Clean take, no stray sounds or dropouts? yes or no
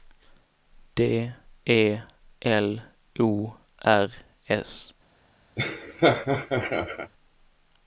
no